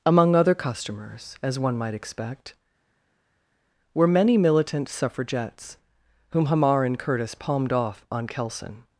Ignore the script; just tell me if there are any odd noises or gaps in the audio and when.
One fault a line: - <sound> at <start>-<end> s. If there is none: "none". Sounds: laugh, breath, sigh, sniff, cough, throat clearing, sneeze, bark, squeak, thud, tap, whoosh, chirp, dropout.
none